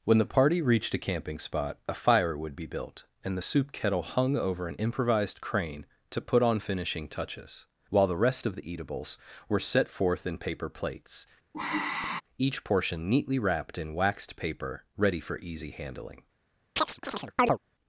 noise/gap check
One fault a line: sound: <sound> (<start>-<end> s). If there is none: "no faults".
sound: sigh (11.5-12.2 s)
sound: chirp (16.8-17.6 s)